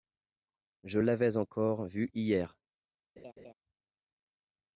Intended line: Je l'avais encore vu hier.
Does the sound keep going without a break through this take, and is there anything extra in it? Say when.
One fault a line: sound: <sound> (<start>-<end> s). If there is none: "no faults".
sound: laugh (3.2-3.5 s)